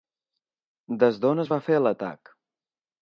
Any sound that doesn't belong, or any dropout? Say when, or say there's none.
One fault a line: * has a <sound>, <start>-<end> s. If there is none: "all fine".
all fine